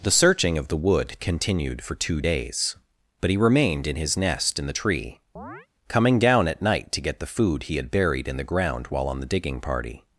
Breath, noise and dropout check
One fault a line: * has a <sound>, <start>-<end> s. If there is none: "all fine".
* has a chirp, 5.4-5.7 s